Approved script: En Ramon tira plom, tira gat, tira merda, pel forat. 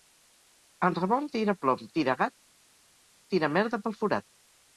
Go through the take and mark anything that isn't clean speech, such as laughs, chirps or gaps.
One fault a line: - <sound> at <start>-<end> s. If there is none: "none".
none